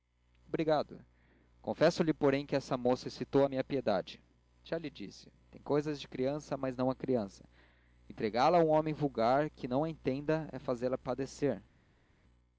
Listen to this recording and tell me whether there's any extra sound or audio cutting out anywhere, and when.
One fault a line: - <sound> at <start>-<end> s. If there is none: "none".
none